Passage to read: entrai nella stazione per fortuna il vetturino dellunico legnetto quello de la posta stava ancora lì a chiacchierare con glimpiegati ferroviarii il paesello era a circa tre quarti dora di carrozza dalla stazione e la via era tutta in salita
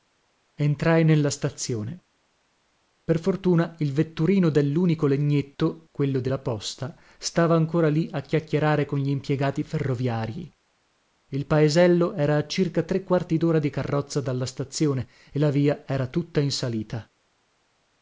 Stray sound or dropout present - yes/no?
no